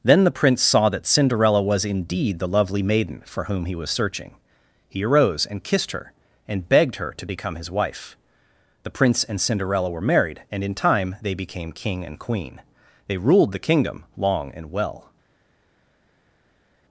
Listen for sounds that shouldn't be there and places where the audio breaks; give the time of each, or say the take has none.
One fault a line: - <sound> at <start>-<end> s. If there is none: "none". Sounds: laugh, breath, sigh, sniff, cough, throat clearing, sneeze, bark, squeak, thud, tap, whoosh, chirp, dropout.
none